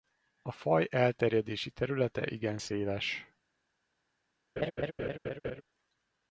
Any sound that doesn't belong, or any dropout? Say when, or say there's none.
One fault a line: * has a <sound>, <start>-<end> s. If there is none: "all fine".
* has a laugh, 4.6-5.6 s